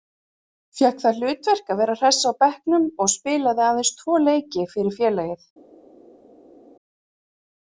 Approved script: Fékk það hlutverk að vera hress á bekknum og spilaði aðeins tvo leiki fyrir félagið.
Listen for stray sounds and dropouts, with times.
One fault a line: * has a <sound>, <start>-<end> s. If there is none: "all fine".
all fine